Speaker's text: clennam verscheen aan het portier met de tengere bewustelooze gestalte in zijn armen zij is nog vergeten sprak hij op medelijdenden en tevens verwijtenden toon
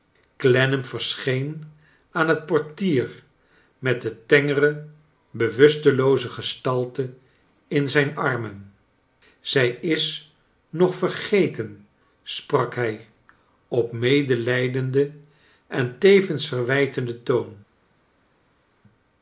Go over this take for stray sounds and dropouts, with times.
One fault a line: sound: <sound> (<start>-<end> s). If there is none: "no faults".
no faults